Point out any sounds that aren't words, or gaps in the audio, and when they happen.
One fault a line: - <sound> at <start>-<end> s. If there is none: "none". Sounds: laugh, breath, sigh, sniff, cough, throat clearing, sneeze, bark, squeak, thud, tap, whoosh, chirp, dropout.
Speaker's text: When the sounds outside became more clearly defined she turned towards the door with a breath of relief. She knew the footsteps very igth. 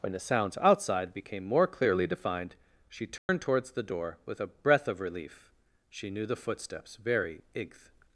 - dropout at 3.2-3.3 s